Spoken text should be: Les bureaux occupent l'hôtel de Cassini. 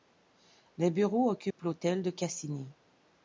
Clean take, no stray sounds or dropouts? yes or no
no